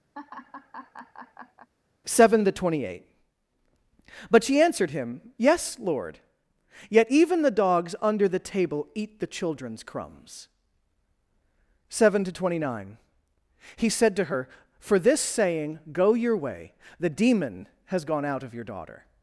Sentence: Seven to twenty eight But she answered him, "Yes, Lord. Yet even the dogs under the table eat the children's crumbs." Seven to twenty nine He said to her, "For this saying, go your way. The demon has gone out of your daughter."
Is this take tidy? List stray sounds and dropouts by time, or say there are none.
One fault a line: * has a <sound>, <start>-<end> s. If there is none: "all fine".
* has a laugh, 0.1-1.7 s